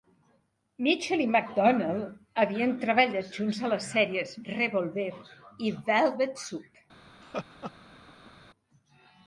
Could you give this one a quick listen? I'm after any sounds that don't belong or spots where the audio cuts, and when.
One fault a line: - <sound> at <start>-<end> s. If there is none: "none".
- laugh at 7.2-8.3 s